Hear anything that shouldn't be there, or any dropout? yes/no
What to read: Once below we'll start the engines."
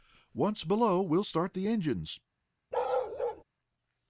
yes